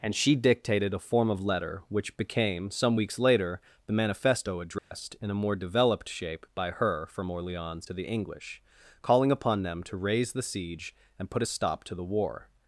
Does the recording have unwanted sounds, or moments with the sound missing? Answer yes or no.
yes